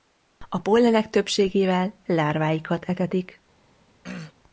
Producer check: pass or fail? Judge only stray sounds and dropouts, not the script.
fail